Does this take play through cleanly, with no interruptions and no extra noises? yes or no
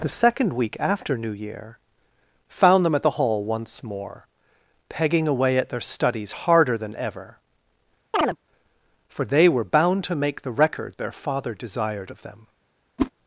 no